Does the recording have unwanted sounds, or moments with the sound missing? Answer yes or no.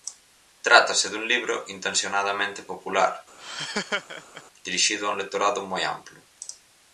yes